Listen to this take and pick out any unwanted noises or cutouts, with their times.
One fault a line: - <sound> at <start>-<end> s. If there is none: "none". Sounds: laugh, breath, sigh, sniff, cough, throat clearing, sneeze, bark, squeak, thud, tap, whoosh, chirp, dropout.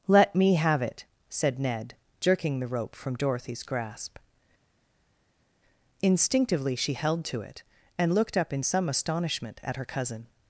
none